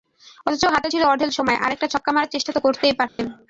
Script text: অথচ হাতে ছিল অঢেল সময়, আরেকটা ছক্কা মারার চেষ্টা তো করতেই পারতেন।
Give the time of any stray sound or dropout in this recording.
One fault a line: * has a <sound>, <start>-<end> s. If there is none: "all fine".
* has a dropout, 3.1-3.2 s